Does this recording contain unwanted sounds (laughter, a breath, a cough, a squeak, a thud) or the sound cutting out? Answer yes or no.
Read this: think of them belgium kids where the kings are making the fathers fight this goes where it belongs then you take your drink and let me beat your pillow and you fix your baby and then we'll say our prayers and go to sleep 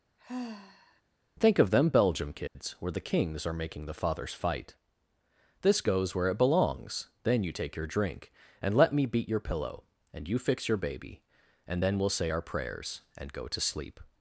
yes